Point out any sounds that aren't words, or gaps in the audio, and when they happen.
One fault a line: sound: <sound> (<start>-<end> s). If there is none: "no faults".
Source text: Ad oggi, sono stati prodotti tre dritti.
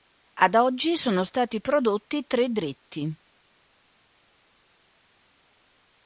no faults